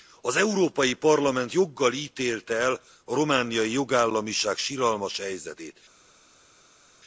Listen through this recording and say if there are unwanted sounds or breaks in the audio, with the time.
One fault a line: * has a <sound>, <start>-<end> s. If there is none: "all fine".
all fine